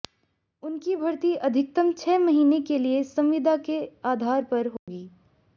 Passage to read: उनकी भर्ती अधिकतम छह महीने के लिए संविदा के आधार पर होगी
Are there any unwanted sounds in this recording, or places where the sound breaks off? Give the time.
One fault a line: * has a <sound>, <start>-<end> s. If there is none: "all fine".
* has a dropout, 4.8-4.9 s